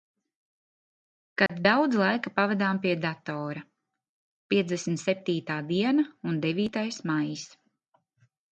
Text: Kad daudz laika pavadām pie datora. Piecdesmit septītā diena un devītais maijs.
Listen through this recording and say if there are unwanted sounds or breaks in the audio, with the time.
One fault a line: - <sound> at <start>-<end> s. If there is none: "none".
- dropout at 1.5-1.5 s